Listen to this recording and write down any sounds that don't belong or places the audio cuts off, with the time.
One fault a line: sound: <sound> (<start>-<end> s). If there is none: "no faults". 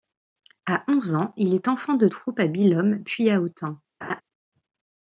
sound: laugh (4.0-4.2 s)